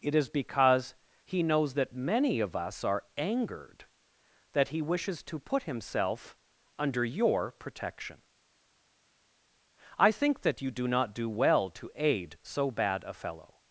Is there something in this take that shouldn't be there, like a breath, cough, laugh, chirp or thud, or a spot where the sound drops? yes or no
no